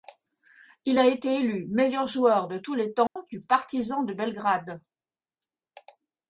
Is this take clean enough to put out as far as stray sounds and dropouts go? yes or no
no